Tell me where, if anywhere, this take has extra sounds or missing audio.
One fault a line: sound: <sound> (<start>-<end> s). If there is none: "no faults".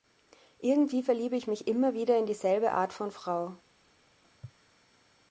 no faults